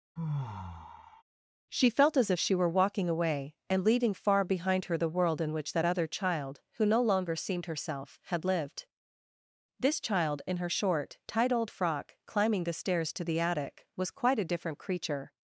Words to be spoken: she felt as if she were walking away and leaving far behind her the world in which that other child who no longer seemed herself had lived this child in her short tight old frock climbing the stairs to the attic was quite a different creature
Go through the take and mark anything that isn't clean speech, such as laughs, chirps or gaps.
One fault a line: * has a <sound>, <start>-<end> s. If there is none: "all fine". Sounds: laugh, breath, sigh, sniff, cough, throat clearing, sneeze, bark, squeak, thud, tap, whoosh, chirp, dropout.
* has a sigh, 0.2-1.2 s